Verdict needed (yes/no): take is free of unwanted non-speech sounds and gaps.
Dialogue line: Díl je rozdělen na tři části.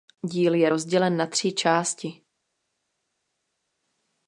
yes